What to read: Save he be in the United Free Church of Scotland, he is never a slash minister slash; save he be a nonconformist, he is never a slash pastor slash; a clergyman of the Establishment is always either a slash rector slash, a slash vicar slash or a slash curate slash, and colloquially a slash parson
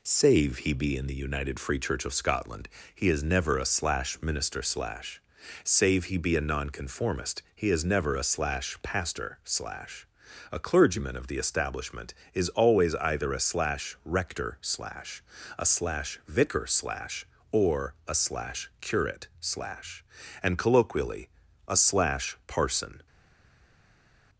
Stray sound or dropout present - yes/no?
no